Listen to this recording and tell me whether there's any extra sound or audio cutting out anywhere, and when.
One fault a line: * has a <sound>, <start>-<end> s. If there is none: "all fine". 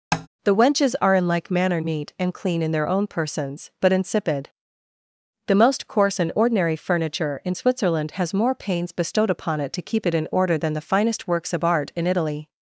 * has a tap, 0.1-0.3 s